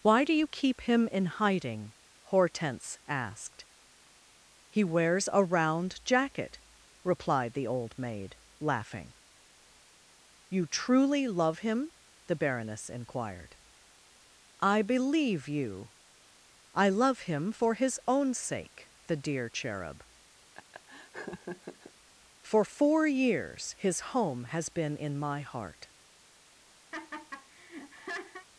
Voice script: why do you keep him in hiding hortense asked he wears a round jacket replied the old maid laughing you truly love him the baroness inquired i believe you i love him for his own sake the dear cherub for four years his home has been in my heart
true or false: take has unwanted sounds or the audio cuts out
true